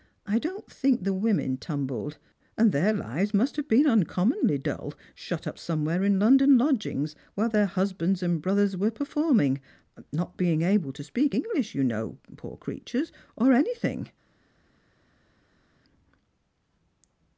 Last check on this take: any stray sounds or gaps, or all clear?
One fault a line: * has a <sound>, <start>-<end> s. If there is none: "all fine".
all fine